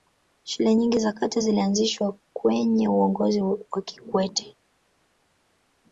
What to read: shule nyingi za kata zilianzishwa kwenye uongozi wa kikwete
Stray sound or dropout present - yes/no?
no